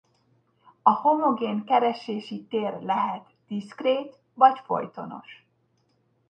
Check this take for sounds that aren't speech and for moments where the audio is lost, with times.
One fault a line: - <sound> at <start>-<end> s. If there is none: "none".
none